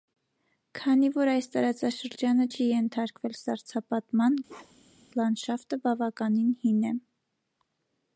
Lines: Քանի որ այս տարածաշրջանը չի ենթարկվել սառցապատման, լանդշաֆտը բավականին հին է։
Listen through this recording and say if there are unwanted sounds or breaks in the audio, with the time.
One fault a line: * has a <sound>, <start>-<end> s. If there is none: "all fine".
* has a bark, 4.5-5.1 s